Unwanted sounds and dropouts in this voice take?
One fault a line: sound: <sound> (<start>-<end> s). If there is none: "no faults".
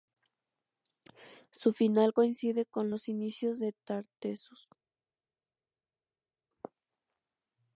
no faults